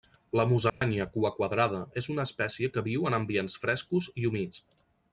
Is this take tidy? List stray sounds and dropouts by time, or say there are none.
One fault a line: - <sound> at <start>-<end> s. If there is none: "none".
- dropout at 0.7-0.8 s